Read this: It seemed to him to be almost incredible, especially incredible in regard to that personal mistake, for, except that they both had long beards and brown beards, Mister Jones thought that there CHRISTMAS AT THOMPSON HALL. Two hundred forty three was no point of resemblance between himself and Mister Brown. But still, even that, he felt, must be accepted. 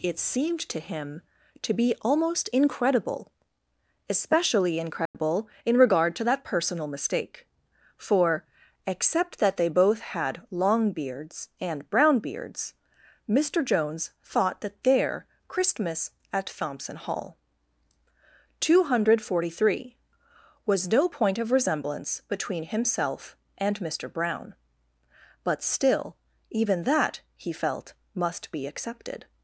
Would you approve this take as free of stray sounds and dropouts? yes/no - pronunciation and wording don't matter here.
no